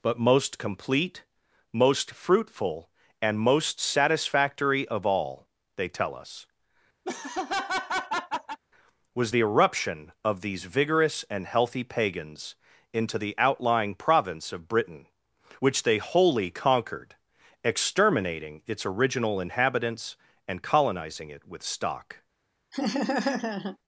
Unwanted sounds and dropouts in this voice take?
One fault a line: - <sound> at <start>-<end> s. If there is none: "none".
- laugh at 7.0-8.6 s
- laugh at 22.7-23.8 s